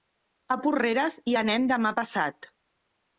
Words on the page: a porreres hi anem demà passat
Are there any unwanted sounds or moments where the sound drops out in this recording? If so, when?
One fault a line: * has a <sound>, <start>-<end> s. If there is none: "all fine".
all fine